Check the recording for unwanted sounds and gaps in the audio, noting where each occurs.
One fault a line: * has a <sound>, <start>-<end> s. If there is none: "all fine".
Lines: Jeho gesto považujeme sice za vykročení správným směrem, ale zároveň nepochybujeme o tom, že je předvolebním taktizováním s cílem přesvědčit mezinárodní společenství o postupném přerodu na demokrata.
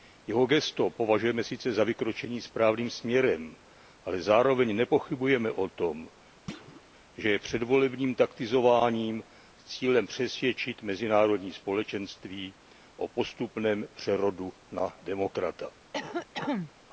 * has a thud, 6.5-6.8 s
* has a cough, 15.9-16.7 s